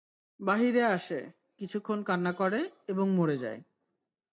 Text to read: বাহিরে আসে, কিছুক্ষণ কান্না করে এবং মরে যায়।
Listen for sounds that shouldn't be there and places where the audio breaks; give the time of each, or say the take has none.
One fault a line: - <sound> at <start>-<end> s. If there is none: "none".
none